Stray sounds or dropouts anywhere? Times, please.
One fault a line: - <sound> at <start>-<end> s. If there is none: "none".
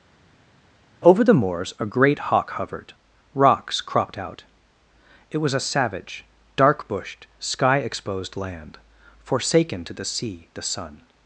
none